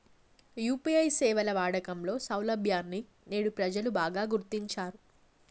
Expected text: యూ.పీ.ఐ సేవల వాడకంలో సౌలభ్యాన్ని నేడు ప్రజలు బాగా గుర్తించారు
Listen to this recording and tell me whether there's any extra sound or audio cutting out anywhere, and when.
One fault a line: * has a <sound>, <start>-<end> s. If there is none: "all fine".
all fine